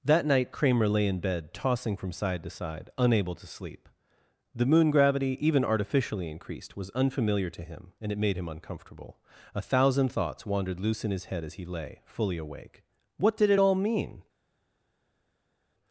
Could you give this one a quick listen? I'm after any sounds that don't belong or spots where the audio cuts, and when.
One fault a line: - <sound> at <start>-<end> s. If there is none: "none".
none